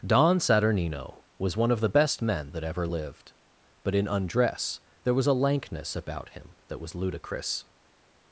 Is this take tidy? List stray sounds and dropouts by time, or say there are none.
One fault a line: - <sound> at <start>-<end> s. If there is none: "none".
none